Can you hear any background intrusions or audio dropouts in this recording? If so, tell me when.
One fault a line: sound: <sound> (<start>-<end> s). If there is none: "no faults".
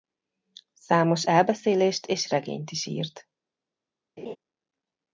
sound: laugh (4.2-4.4 s)